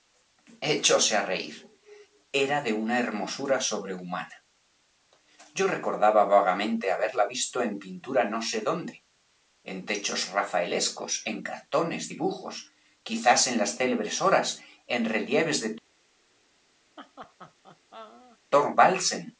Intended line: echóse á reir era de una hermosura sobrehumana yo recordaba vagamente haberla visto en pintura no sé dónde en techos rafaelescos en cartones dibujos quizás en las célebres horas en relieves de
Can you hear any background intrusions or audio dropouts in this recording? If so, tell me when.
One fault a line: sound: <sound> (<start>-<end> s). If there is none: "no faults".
sound: laugh (17.0-18.4 s)